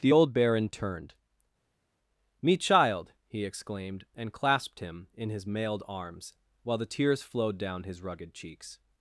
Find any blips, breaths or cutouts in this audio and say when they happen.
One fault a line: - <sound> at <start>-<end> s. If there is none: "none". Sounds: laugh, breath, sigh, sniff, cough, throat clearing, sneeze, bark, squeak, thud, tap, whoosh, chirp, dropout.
none